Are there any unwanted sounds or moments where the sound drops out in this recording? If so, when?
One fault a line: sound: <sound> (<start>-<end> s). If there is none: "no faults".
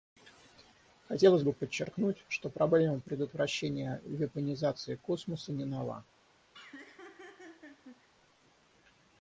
sound: laugh (6.5-8.1 s)